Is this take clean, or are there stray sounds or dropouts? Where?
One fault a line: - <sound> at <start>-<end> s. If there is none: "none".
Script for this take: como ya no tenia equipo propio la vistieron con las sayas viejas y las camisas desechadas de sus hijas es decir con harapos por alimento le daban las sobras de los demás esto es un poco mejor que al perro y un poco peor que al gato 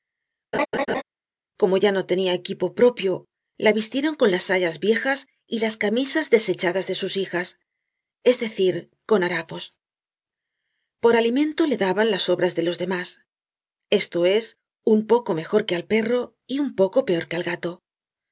- laugh at 0.5-1.0 s